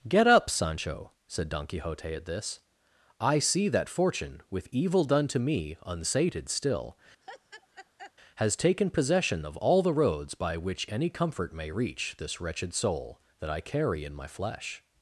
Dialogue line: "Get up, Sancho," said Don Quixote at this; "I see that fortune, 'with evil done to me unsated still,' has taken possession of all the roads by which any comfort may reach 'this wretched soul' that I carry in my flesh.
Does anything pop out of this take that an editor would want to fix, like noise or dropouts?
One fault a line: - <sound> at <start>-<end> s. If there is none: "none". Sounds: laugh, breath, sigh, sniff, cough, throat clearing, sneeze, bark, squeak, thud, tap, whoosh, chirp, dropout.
- laugh at 7.2-8.1 s